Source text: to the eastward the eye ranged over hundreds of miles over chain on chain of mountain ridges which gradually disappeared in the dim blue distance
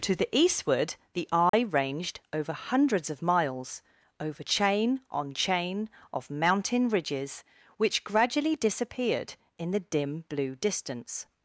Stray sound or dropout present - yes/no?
yes